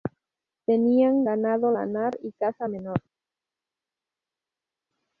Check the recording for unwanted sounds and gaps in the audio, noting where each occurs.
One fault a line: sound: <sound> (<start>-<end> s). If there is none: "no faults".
no faults